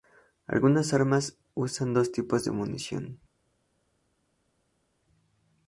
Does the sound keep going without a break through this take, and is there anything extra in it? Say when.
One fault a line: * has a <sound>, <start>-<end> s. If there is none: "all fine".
all fine